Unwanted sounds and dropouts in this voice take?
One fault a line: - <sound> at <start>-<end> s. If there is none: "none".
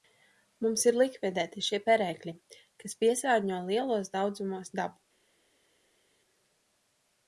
none